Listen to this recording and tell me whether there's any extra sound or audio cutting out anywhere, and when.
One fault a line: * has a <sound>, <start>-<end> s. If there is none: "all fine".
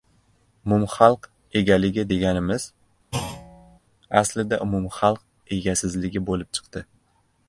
* has a thud, 3.1-3.8 s